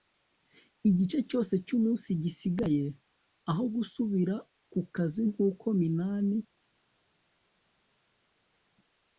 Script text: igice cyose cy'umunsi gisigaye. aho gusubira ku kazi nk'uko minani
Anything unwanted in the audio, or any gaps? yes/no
no